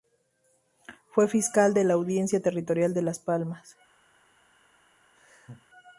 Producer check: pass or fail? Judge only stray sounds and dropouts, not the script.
fail